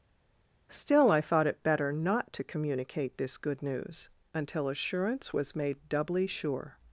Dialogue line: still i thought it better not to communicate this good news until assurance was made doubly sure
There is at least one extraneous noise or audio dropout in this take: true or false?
false